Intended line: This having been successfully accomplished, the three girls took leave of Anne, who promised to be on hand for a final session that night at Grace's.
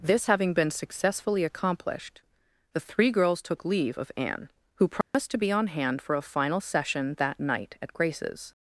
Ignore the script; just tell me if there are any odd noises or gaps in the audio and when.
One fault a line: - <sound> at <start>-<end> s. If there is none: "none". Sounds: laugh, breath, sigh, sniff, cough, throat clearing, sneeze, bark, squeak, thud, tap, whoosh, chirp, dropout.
- dropout at 5.0-5.1 s